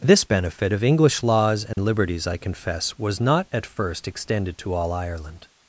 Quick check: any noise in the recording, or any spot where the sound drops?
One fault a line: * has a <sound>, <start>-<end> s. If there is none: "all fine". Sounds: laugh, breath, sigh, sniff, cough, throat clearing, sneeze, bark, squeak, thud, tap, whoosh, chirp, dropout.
* has a dropout, 1.7-1.8 s